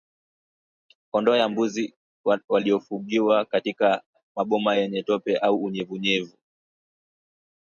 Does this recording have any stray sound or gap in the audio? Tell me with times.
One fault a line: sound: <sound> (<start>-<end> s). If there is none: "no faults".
no faults